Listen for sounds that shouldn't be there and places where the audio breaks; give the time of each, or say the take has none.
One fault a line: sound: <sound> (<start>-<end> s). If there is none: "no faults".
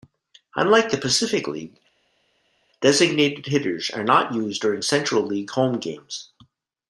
no faults